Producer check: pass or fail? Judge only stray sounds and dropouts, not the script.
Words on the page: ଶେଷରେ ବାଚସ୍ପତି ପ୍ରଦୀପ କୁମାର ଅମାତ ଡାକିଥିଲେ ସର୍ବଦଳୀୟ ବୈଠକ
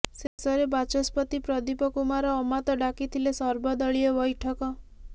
fail